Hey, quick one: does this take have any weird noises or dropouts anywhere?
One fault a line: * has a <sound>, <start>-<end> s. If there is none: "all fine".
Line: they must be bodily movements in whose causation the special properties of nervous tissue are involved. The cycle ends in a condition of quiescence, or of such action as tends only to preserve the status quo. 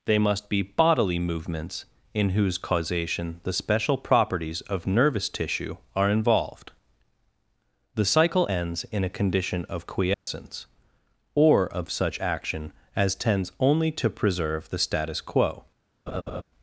* has a dropout, 10.1-10.3 s
* has a laugh, 16.1-16.4 s